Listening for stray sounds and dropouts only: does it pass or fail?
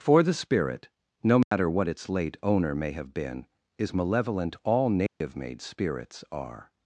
fail